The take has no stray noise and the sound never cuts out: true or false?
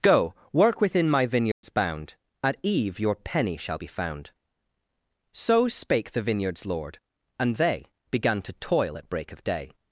false